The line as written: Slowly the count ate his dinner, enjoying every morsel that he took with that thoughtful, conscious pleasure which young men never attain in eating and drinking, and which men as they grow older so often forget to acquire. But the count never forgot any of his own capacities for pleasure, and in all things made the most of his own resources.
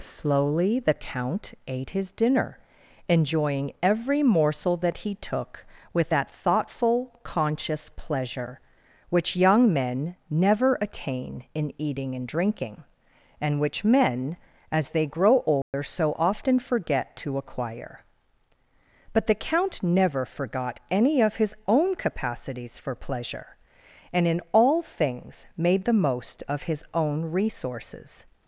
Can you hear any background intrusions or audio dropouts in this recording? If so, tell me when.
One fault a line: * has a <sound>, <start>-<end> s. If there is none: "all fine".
* has a dropout, 15.6-15.7 s